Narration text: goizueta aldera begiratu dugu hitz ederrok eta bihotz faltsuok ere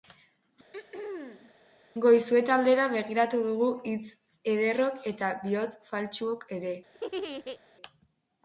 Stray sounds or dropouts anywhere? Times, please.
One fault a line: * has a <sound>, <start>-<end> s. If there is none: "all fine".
* has a throat clearing, 0.7-1.5 s
* has a laugh, 6.9-7.6 s